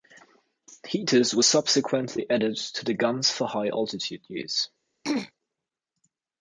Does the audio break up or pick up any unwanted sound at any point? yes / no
yes